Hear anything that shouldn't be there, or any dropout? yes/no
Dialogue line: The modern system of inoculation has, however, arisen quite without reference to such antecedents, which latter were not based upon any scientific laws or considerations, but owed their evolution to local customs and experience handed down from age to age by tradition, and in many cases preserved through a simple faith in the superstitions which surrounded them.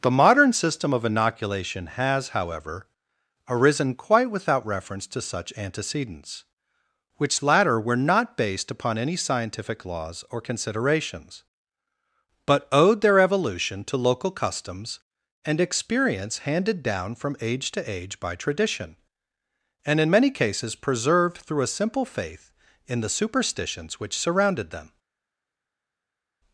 no